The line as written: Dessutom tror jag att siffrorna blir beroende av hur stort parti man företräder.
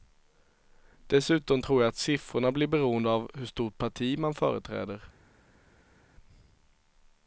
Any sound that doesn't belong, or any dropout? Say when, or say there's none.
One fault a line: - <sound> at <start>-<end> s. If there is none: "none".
none